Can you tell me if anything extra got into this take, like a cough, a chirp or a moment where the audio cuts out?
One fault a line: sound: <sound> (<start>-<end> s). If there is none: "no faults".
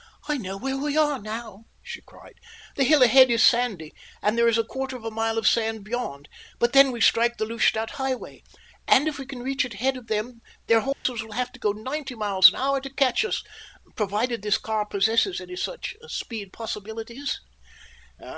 sound: dropout (10.9-11.1 s)